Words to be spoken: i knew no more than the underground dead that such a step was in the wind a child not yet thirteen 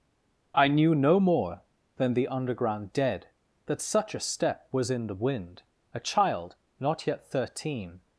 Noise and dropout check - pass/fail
pass